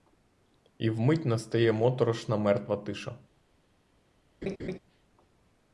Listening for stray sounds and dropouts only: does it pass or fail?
fail